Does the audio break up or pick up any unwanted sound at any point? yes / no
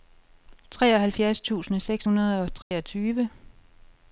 yes